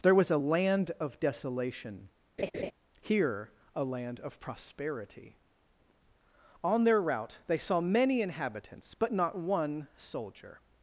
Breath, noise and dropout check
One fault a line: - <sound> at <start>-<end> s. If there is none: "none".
- laugh at 2.4-2.7 s